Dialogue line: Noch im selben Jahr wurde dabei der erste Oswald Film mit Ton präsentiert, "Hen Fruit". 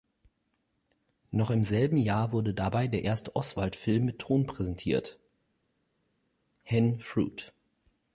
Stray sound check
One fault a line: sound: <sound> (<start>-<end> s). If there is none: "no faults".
no faults